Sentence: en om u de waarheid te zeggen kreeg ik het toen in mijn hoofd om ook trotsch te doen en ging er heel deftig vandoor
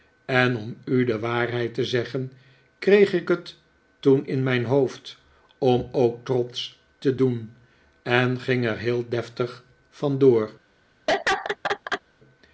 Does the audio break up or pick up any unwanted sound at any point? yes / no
yes